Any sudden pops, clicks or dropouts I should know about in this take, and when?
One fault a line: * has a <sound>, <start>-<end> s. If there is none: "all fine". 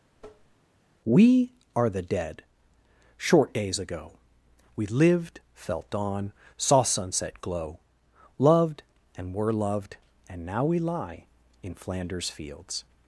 * has a tap, 0.2-0.6 s